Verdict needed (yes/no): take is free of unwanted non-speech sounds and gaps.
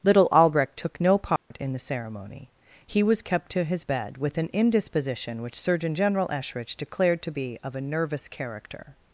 no